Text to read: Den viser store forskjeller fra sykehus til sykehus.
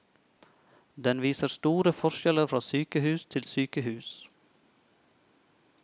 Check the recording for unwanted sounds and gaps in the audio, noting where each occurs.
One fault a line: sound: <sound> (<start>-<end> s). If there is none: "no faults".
no faults